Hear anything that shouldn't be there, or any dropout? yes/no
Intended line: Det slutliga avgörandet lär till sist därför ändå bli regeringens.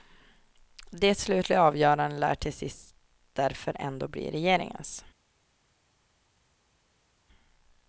no